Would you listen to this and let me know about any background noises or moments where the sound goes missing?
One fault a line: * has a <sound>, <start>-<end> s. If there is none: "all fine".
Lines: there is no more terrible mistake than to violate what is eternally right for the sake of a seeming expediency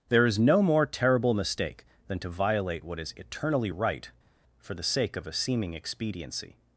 all fine